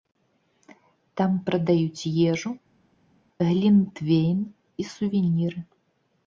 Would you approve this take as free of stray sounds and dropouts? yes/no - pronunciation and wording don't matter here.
yes